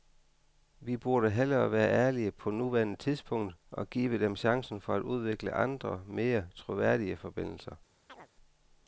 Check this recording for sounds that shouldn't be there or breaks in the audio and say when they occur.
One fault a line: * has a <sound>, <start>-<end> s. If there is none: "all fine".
* has a chirp, 8.1-8.3 s